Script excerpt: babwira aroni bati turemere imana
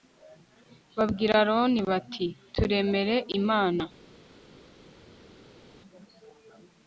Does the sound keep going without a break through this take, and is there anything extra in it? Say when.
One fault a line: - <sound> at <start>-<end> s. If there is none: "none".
none